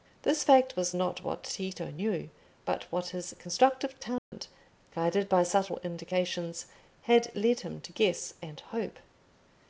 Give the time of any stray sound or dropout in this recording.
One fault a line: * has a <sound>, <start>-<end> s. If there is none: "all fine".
* has a dropout, 4.2-4.3 s